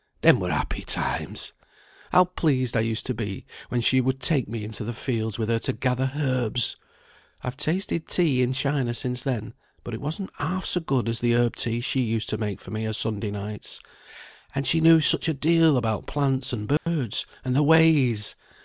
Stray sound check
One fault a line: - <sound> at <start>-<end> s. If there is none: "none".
- dropout at 16.8-16.9 s